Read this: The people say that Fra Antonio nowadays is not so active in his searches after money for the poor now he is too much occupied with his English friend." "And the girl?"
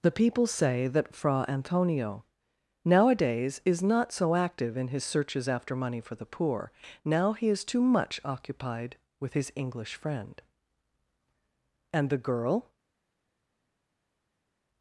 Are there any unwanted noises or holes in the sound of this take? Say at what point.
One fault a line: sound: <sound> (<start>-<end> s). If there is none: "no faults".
no faults